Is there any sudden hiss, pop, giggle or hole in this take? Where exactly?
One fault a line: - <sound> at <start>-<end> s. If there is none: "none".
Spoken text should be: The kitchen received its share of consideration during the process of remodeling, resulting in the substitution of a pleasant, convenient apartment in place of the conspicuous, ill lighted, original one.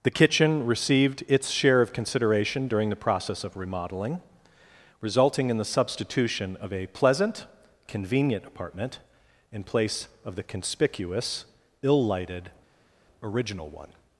none